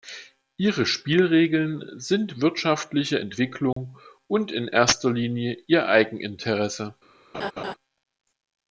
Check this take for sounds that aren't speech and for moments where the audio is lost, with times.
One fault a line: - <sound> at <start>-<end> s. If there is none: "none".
- dropout at 3.7-3.8 s
- laugh at 7.3-7.7 s